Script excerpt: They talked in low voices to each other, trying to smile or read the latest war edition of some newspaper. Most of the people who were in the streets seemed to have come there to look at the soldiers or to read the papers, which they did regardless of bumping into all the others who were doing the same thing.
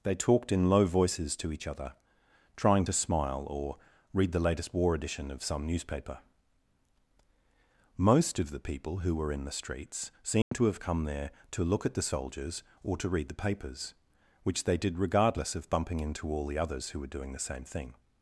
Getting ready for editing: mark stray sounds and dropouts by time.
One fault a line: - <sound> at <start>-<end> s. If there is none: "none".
- dropout at 10.4-10.5 s